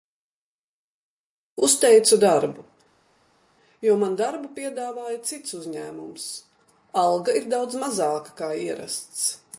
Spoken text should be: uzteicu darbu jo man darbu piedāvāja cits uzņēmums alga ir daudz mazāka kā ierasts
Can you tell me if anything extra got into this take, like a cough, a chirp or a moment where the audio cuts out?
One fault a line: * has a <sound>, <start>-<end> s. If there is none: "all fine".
all fine